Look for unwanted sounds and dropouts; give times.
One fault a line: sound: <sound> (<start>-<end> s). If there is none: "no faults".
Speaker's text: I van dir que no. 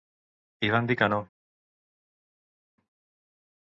no faults